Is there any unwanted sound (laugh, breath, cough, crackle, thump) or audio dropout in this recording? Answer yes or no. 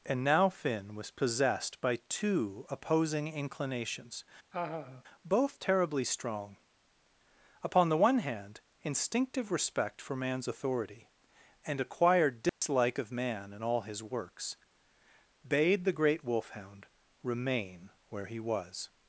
yes